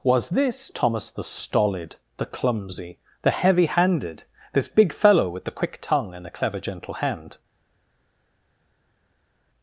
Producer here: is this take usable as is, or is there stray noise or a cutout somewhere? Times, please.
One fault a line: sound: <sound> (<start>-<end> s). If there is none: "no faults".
no faults